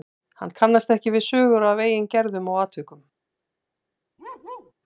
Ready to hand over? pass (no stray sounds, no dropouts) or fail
fail